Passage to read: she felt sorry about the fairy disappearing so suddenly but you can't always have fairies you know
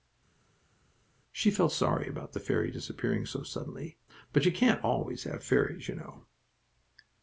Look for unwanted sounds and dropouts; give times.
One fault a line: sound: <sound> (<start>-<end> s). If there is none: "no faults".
no faults